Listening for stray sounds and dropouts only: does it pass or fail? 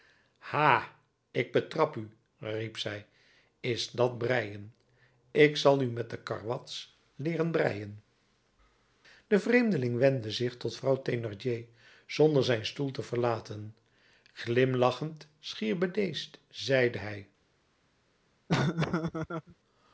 fail